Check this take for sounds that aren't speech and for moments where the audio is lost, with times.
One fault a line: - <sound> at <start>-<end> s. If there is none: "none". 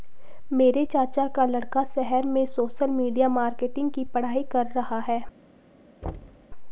- thud at 6.0-6.5 s